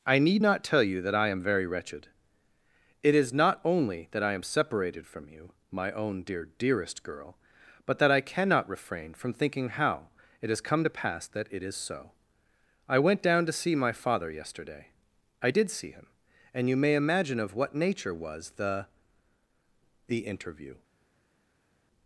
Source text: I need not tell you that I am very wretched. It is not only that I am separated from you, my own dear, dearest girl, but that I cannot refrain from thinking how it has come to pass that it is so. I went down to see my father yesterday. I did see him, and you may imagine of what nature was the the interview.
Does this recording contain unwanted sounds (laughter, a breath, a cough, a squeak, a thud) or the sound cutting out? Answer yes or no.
no